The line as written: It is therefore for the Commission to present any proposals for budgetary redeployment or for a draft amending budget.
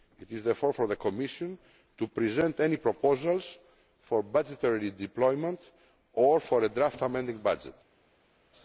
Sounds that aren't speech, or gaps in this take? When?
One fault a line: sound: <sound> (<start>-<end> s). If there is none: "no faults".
no faults